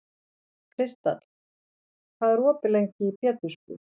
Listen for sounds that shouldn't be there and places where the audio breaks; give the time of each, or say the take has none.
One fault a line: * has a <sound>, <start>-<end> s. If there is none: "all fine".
all fine